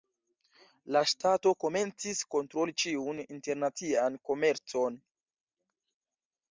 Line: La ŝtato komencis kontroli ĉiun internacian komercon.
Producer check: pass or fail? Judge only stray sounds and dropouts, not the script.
pass